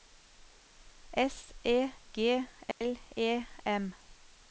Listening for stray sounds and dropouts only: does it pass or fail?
fail